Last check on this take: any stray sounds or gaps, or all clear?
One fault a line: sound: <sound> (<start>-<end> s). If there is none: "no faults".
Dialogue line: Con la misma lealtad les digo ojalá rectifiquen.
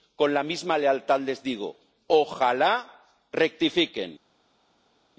no faults